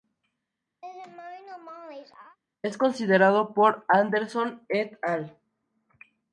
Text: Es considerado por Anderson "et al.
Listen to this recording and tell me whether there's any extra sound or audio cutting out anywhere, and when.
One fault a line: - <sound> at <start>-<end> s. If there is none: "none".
- laugh at 0.8-2.4 s